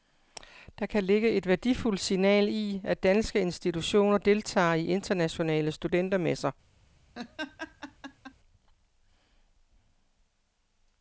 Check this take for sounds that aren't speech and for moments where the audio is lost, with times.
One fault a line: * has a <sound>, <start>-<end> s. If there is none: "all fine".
* has a laugh, 7.1-8.3 s